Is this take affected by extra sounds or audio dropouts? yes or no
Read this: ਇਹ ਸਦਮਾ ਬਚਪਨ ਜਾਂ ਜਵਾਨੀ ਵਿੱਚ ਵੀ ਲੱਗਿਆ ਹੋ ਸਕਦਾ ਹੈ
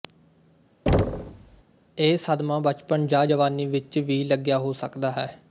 yes